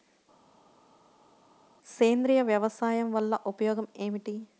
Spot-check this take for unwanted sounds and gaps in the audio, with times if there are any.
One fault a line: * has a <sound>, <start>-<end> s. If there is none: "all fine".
all fine